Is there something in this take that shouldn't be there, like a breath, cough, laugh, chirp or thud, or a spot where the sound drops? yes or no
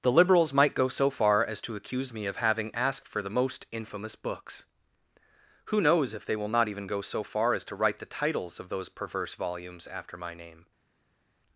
no